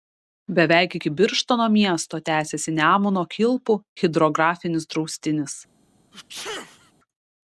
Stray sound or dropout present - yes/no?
yes